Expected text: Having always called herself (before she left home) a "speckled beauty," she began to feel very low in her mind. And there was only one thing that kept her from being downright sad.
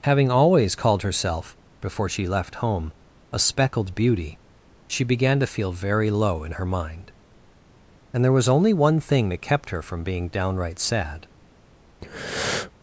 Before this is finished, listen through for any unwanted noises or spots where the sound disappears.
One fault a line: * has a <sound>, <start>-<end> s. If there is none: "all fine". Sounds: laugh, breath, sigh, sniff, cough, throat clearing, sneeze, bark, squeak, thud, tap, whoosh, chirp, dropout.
* has a breath, 12.0-12.7 s